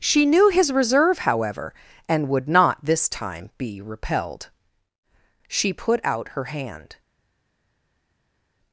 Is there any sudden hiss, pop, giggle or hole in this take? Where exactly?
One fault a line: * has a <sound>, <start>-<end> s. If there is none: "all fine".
all fine